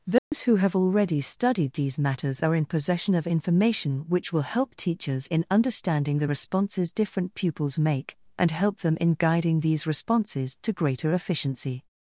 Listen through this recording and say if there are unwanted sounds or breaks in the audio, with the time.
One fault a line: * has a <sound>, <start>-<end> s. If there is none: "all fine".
* has a dropout, 0.2-0.3 s